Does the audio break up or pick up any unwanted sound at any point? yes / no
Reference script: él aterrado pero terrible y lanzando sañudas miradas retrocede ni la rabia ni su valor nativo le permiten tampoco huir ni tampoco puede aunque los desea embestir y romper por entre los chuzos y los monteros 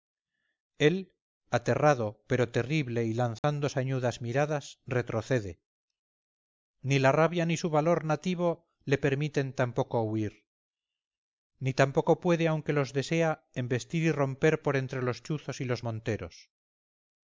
yes